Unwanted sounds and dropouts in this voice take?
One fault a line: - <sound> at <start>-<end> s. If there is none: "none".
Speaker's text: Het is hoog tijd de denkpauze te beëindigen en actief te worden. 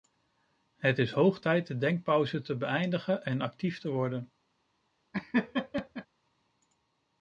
- laugh at 5.1-6.1 s